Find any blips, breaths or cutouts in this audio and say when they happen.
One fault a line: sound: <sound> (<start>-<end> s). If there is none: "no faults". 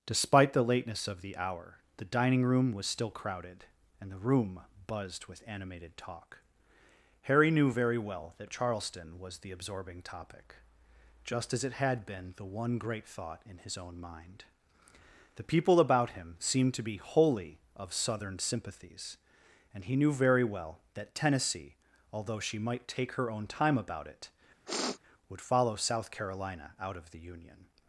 sound: sniff (24.7-25.0 s)